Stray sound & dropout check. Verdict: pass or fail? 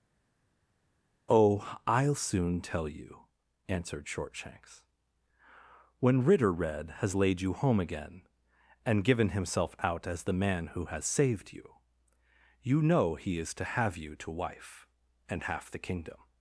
pass